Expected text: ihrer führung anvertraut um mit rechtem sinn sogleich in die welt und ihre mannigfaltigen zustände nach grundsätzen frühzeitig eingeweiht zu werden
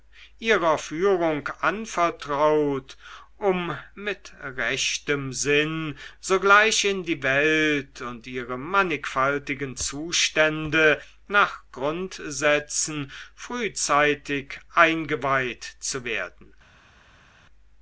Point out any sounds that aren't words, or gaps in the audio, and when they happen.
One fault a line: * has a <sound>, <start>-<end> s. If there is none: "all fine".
all fine